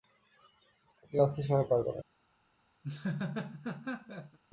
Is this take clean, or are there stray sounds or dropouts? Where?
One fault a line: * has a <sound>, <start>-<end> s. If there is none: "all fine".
* has a laugh, 2.8-4.4 s